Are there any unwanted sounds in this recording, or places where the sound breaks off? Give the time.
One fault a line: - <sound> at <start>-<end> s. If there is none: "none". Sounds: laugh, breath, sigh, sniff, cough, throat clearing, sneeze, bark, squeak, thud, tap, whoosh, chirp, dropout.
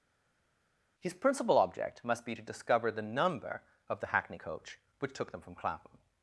none